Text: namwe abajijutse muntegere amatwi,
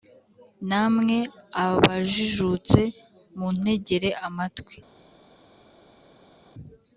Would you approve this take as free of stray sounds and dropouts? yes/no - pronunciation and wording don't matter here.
yes